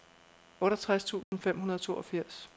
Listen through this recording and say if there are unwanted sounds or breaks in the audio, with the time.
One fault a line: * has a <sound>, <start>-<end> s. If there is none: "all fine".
* has a dropout, 1.2-1.3 s